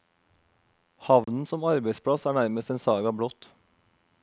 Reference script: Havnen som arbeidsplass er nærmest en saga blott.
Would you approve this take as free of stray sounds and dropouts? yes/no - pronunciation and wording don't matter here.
no